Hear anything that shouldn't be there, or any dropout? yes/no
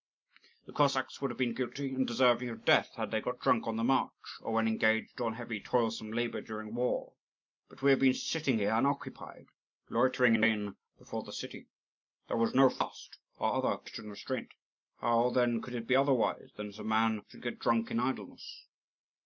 no